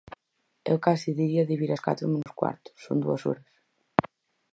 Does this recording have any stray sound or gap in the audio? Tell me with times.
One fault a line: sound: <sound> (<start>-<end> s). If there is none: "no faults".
sound: dropout (2.2-2.3 s)